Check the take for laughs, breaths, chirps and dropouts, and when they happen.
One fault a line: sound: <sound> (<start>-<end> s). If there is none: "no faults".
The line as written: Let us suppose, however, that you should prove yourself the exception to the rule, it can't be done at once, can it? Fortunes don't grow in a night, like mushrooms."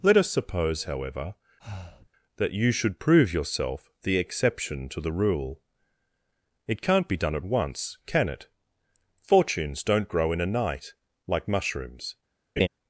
sound: breath (1.6-2.1 s)
sound: laugh (12.6-12.7 s)